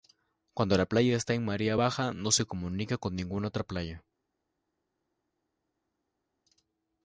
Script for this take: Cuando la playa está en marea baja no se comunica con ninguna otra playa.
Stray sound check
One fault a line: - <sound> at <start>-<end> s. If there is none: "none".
none